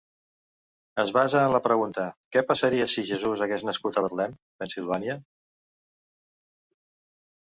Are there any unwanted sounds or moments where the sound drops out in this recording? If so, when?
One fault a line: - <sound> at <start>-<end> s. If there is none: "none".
none